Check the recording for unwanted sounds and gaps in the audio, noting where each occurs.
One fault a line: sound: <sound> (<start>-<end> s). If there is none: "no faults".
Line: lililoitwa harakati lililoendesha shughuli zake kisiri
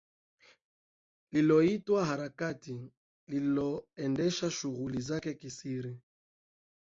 no faults